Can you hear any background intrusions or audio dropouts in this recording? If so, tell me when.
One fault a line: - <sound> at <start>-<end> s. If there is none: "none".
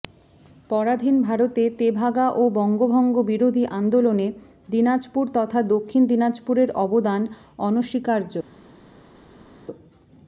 none